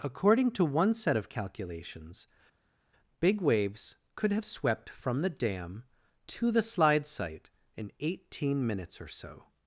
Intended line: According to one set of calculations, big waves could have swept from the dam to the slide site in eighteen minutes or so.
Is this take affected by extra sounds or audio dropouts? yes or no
no